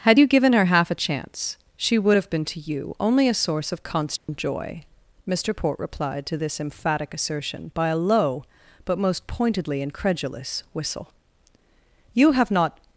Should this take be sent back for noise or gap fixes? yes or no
yes